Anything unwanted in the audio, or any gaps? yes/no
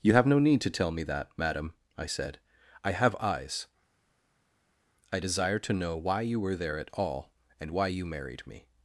no